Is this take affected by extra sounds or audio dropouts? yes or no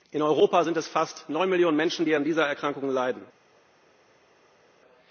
no